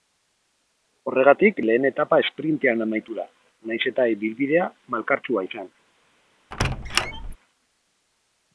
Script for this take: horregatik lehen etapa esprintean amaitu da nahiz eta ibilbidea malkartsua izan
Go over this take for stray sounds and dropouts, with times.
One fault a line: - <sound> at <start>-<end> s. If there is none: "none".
- squeak at 6.5-7.4 s